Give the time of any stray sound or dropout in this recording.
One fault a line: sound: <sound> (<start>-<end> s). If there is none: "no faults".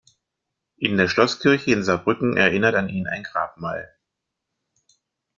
no faults